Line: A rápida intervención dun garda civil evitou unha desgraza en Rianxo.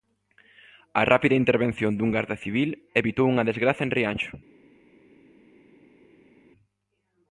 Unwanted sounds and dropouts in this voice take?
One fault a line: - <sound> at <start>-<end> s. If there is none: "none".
none